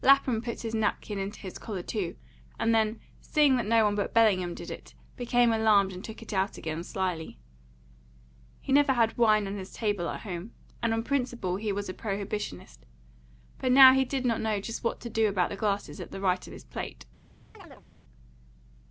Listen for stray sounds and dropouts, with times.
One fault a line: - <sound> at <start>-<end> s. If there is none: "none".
- chirp at 17.5-17.9 s